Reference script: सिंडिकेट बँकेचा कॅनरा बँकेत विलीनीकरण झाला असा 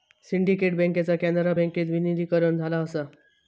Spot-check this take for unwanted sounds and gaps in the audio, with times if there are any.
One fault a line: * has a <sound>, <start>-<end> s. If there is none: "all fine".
all fine